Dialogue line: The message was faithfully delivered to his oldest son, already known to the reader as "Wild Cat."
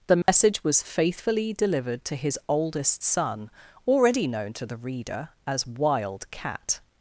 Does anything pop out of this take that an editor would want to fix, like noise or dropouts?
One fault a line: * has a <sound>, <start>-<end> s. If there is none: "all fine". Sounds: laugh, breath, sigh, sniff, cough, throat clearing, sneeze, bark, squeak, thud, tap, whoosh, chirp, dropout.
* has a dropout, 0.2-0.3 s